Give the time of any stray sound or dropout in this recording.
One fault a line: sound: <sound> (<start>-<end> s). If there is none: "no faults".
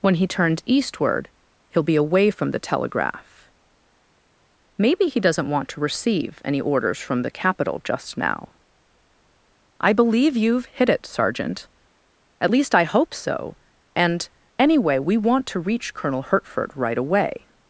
no faults